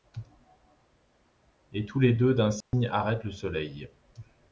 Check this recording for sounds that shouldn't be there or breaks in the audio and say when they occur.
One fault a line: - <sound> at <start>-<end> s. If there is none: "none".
- dropout at 2.6-2.7 s